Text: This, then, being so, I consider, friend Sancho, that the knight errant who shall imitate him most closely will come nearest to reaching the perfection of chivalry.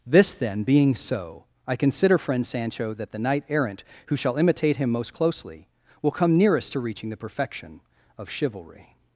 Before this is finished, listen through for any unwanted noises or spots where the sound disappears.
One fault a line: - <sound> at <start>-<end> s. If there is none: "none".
none